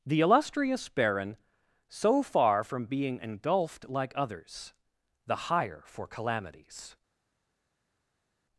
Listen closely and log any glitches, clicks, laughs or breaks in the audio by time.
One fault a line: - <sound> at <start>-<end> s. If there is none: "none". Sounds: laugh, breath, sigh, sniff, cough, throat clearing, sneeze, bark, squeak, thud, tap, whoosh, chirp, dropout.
none